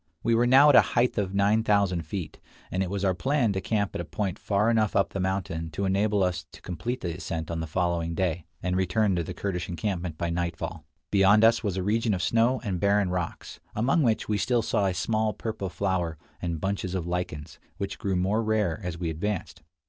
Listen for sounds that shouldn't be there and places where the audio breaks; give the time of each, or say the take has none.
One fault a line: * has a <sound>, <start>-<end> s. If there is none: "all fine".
all fine